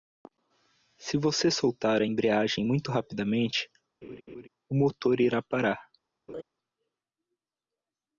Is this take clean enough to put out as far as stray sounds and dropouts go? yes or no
no